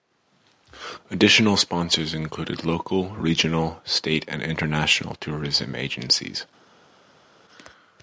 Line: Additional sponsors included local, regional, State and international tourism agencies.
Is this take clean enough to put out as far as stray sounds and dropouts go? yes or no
yes